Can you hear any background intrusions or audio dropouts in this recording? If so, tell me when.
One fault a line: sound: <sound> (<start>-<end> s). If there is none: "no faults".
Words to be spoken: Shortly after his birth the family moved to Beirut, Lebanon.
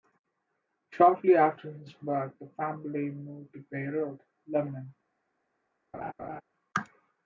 sound: laugh (5.9-6.4 s)